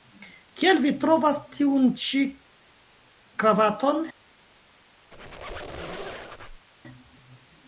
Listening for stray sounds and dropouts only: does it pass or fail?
fail